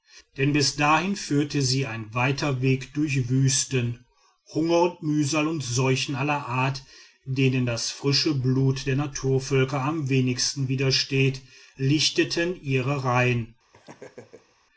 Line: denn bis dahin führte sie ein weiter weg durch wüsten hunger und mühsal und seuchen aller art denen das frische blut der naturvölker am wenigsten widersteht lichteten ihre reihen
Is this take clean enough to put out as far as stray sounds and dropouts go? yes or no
no